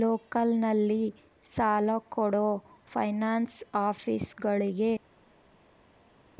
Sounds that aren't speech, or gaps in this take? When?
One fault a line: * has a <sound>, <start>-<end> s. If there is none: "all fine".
all fine